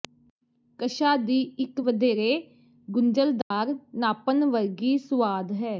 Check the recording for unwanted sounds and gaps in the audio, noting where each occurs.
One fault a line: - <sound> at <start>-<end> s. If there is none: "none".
- dropout at 3.4-3.5 s